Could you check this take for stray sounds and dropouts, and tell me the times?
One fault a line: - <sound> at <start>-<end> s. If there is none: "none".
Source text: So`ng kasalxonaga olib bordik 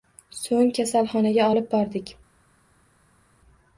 none